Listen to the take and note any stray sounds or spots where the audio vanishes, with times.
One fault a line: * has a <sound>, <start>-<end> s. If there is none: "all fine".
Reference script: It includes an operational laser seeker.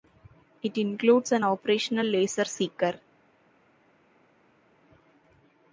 all fine